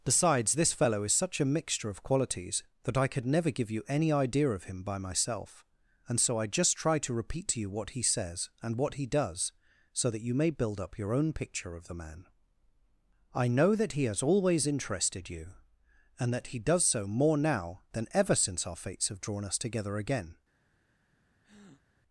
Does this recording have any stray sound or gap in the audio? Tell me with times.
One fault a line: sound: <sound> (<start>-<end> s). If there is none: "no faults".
sound: breath (21.4-21.8 s)